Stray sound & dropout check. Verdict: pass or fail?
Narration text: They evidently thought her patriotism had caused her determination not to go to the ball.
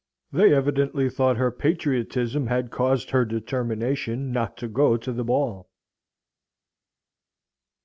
pass